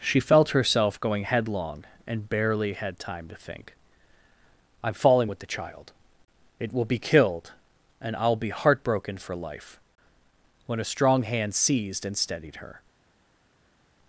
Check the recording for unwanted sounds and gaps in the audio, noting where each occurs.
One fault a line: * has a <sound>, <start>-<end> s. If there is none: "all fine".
all fine